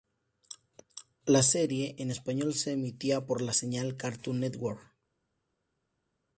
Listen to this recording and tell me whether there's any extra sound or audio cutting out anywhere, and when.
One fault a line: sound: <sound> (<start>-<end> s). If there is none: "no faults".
no faults